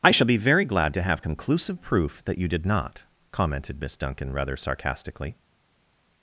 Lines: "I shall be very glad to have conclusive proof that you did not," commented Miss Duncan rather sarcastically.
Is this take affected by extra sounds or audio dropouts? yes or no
no